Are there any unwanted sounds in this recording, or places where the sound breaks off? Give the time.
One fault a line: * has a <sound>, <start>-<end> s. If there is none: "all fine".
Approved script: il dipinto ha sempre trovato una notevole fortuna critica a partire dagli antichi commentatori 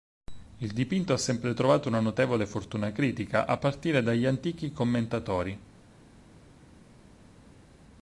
all fine